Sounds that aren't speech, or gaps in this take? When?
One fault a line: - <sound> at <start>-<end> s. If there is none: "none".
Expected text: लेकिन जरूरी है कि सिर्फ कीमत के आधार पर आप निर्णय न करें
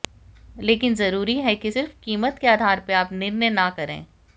none